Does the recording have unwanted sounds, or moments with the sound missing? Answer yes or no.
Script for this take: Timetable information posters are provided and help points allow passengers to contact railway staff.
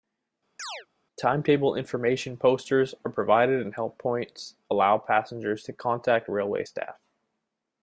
yes